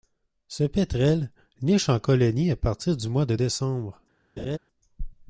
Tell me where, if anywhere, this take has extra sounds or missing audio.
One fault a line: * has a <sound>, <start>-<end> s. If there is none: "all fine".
* has a laugh, 4.4-4.6 s